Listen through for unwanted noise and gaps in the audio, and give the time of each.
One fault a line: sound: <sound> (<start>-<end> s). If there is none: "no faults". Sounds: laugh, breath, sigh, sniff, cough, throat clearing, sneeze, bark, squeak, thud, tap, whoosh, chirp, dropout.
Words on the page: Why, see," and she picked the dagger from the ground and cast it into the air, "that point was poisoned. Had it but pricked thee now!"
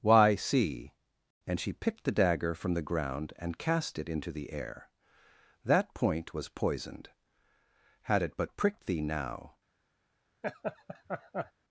sound: laugh (10.4-11.5 s)